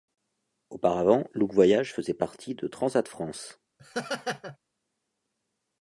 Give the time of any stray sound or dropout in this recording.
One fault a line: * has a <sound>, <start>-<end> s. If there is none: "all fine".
* has a laugh, 3.8-4.6 s